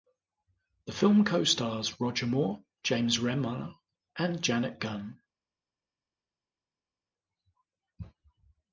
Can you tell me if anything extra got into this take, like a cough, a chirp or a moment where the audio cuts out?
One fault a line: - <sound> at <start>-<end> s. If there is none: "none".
none